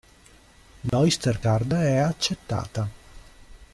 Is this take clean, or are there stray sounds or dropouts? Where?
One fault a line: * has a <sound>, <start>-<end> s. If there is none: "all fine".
* has a dropout, 0.9-0.9 s